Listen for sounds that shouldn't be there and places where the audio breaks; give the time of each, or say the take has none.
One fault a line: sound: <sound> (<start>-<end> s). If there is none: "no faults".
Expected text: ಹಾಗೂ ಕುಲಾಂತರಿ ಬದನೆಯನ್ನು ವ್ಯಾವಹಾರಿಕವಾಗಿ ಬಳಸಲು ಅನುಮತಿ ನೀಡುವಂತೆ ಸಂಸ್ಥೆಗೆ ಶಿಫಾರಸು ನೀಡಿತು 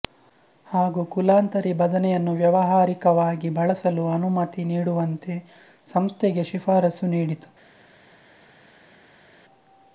no faults